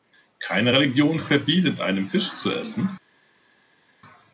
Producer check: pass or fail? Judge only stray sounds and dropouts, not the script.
pass